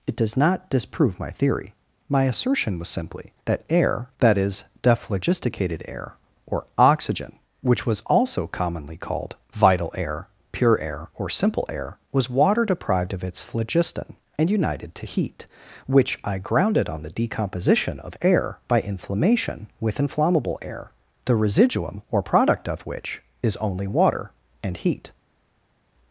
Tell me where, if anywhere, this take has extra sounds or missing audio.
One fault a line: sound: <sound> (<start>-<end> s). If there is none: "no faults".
no faults